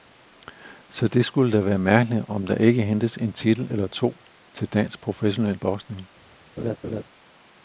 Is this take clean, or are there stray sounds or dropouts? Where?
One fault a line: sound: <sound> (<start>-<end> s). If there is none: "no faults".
sound: laugh (6.6-7.0 s)